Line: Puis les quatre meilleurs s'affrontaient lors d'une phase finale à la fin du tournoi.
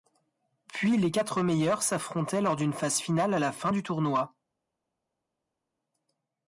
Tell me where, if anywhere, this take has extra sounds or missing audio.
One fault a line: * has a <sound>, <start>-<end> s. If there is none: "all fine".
all fine